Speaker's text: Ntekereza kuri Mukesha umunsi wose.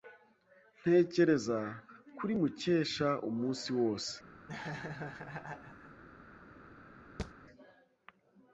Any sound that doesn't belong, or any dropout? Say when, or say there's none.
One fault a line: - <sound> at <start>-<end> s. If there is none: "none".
- laugh at 4.5-6.0 s
- thud at 7.2-7.3 s